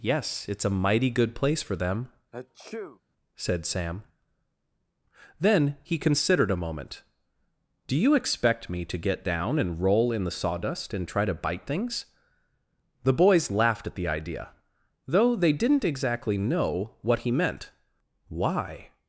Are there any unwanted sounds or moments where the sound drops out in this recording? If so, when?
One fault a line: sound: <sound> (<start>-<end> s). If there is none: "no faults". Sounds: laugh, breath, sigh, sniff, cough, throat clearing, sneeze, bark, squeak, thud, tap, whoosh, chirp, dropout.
sound: sneeze (2.3-3.0 s)